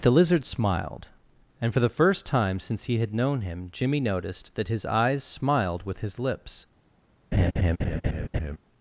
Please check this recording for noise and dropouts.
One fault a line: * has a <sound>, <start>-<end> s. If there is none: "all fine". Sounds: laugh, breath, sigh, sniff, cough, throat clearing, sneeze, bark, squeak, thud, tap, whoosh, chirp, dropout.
* has a laugh, 7.3-8.6 s